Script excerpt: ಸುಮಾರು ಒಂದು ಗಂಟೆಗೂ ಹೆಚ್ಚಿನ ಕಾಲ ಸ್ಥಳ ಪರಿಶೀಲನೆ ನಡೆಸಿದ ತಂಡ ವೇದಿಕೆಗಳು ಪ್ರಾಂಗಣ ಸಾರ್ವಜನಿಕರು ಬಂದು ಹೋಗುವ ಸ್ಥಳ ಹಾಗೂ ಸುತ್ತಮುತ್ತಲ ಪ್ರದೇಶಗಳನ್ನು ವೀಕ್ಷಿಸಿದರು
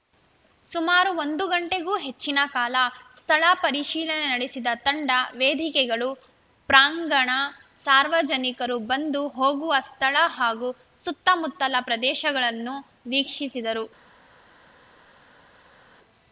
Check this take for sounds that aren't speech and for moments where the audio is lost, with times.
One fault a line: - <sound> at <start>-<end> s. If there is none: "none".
none